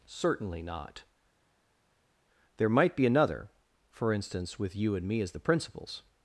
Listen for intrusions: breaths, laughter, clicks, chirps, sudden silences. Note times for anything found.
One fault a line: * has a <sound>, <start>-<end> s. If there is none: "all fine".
all fine